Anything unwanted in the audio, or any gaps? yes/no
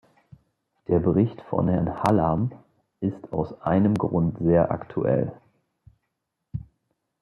no